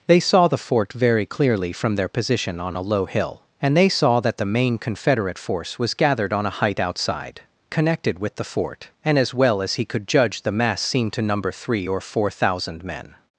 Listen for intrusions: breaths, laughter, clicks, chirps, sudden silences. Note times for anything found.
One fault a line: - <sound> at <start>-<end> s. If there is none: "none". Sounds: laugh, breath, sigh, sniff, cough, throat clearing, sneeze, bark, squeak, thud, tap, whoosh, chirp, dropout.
none